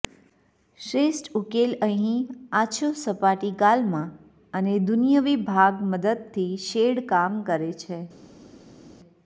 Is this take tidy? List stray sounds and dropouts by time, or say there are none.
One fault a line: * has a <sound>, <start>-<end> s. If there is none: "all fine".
all fine